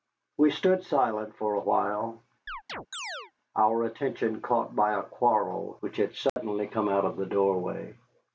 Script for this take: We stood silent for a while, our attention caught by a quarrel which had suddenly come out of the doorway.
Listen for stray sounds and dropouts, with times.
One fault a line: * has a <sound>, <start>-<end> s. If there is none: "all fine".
* has a chirp, 2.5-3.3 s
* has a dropout, 6.3-6.4 s